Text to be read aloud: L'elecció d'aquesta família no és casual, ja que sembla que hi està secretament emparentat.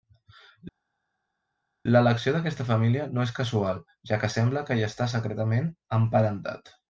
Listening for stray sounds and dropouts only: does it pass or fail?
pass